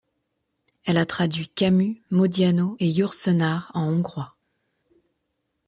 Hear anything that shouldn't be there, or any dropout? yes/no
no